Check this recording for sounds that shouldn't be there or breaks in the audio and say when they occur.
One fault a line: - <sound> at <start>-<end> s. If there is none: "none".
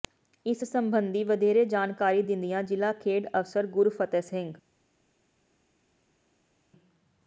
none